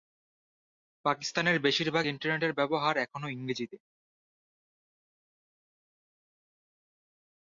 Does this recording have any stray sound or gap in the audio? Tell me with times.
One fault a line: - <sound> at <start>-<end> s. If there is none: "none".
none